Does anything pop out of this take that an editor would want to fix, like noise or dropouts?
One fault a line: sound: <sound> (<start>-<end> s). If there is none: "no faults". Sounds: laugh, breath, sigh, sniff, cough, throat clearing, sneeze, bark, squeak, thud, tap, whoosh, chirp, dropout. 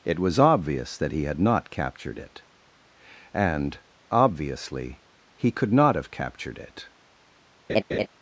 sound: laugh (7.7-8.1 s)